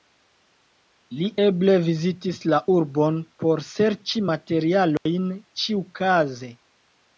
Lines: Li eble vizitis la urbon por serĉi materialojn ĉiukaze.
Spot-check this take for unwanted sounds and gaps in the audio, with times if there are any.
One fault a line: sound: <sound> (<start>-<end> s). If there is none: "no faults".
sound: dropout (5.0-5.1 s)